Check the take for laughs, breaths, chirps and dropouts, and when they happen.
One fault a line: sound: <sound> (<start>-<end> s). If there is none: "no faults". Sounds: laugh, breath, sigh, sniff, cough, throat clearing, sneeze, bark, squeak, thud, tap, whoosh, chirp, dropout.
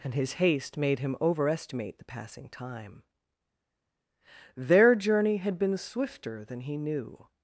no faults